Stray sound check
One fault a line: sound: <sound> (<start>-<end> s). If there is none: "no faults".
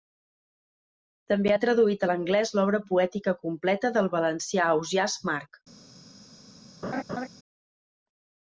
sound: laugh (6.8-7.3 s)